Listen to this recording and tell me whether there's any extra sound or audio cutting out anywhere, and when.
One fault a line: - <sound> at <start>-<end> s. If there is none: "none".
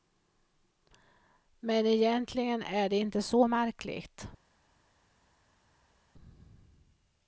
none